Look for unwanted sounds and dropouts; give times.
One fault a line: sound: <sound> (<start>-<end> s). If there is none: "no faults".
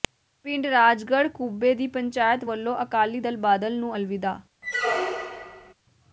sound: squeak (4.6-5.7 s)